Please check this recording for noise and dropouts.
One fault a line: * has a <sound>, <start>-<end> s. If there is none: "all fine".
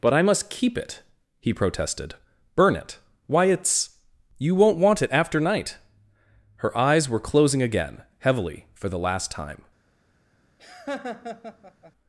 * has a laugh, 10.6-11.9 s